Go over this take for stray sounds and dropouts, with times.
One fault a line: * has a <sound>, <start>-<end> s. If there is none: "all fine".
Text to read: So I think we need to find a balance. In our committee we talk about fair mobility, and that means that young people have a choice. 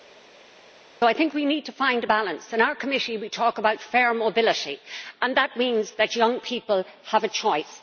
all fine